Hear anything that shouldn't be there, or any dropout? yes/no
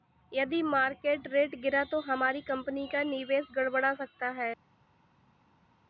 no